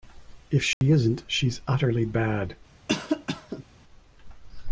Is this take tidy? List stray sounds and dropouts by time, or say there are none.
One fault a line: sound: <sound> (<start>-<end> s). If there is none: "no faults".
sound: dropout (0.7-0.8 s)
sound: cough (2.9-3.6 s)